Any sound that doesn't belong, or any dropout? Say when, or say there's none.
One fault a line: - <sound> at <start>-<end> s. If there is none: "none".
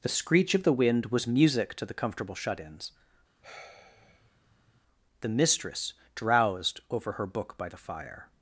- sigh at 3.4-4.8 s